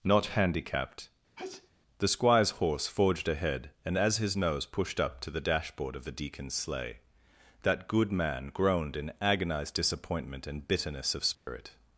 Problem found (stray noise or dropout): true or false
true